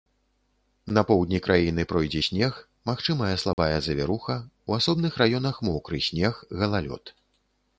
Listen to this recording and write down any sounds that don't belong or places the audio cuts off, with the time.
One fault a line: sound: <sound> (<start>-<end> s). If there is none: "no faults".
sound: dropout (3.5-3.6 s)